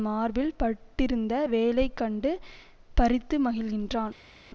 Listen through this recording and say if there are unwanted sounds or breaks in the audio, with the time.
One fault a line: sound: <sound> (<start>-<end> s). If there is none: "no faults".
no faults